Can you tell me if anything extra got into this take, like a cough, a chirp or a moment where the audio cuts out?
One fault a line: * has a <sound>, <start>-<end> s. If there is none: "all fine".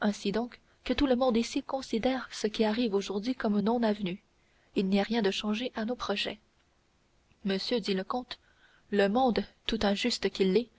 all fine